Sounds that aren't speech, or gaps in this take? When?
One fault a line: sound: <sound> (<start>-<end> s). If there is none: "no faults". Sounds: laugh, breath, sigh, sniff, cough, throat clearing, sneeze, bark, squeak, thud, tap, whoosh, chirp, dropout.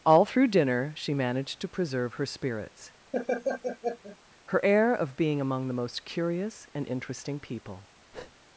sound: laugh (3.1-4.2 s)
sound: breath (8.1-8.3 s)